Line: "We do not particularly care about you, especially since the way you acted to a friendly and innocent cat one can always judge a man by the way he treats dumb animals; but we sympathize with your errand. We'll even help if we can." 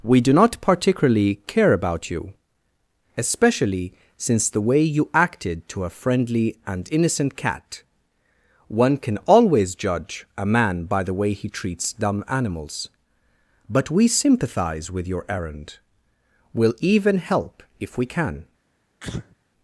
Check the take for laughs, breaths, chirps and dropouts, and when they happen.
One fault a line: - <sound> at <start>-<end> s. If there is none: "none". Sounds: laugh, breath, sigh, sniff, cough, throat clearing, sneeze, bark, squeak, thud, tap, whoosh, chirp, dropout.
- sneeze at 19.0-19.4 s